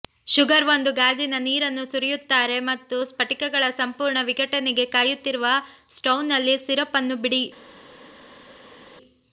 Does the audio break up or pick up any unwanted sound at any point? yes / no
no